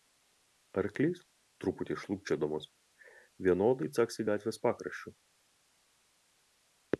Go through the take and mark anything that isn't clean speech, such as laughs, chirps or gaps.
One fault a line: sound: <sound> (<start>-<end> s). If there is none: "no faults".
no faults